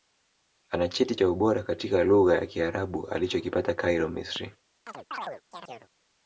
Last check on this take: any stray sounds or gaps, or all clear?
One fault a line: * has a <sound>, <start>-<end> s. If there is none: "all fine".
* has a chirp, 4.9-5.9 s